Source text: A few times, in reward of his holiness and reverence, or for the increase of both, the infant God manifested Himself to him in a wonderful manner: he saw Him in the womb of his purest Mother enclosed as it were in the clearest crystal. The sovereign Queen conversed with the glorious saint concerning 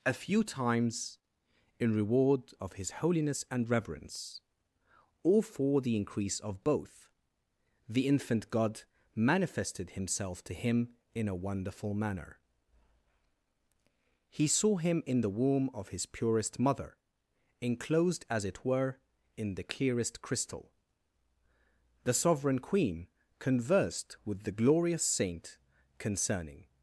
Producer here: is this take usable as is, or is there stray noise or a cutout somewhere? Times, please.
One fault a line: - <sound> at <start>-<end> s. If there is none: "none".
none